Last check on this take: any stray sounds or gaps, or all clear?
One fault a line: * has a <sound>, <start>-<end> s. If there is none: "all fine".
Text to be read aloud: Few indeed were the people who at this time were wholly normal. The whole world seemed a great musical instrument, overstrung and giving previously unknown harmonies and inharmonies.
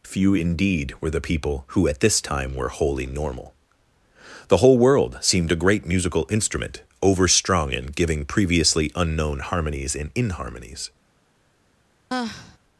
* has a sigh, 12.1-12.6 s